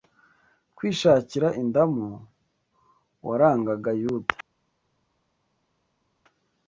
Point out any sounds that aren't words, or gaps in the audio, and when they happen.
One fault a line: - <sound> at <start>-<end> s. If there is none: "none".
none